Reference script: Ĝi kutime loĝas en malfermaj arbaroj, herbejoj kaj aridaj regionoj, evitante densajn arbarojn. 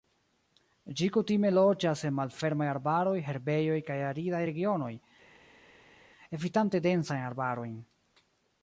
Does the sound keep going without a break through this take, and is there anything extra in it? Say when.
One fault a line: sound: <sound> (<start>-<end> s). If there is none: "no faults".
no faults